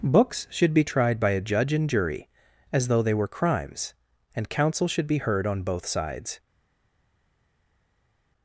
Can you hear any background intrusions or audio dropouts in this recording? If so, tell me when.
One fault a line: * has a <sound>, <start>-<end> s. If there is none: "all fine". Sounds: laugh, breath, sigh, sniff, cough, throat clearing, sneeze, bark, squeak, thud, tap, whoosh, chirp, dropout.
all fine